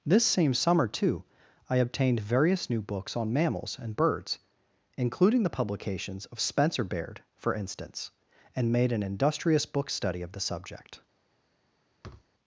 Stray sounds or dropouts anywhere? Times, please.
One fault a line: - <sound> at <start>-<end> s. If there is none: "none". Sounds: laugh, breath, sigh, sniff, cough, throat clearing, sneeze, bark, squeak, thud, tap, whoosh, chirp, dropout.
- thud at 12.0-12.3 s